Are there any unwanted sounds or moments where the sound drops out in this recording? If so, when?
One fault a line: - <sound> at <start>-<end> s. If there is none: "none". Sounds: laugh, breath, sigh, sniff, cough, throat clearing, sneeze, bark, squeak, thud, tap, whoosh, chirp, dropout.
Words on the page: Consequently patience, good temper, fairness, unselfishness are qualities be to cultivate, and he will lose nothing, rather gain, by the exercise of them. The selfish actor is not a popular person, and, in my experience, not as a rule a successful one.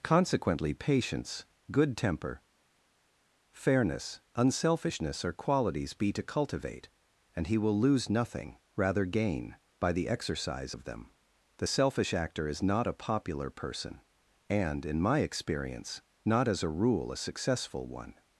none